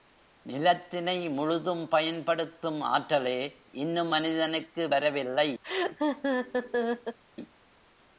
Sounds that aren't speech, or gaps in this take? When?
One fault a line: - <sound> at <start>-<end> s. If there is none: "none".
- laugh at 5.6-7.2 s